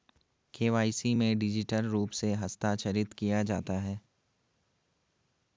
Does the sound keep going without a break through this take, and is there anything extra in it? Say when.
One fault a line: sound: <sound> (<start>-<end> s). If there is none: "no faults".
no faults